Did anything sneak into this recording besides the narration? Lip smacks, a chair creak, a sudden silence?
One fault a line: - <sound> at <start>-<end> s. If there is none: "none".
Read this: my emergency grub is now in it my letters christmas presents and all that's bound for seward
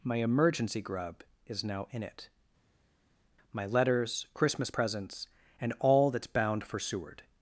none